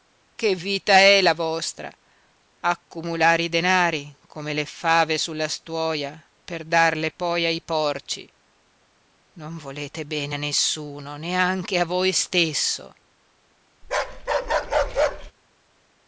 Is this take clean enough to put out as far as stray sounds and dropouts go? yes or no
no